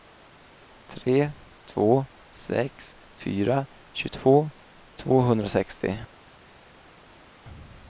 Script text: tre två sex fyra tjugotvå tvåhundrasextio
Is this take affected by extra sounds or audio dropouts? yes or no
no